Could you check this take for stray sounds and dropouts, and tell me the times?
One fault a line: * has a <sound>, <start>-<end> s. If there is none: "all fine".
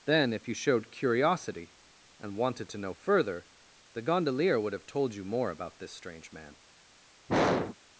* has a throat clearing, 7.3-7.8 s